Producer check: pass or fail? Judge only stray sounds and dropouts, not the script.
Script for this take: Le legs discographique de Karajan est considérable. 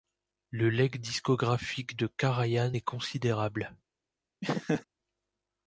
fail